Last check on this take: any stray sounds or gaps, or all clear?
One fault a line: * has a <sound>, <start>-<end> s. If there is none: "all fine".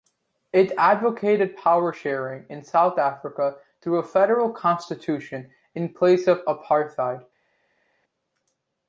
all fine